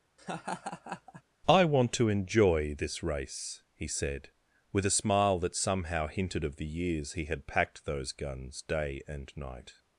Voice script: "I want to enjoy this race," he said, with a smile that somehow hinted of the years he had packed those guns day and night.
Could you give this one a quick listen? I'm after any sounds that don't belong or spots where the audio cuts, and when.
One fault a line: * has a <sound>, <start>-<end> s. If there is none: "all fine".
* has a laugh, 0.2-1.2 s